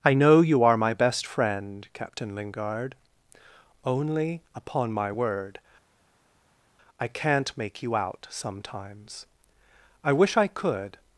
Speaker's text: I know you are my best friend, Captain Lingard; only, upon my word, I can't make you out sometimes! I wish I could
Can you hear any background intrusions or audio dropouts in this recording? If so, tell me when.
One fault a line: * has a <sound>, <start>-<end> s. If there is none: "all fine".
all fine